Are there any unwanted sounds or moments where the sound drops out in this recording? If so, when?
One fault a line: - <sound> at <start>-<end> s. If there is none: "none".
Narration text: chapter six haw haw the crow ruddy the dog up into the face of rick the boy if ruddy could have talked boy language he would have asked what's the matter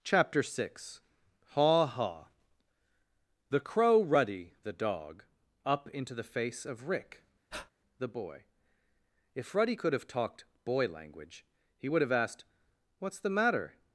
- breath at 7.5-7.7 s